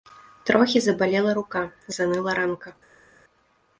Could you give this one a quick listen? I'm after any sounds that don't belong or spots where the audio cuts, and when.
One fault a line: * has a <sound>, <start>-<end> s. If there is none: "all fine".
all fine